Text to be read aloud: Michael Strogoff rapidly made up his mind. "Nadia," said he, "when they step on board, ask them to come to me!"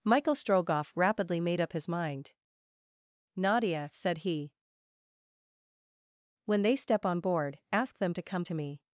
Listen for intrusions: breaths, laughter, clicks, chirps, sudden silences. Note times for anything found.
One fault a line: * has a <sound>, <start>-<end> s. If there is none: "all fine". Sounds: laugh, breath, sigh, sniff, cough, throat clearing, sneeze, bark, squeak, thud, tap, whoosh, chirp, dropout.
all fine